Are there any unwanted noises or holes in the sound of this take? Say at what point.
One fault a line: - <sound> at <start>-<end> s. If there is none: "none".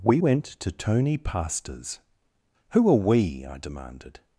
none